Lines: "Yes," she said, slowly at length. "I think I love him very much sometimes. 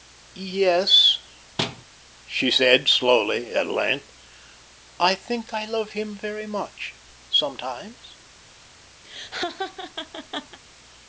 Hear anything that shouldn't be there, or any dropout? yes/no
yes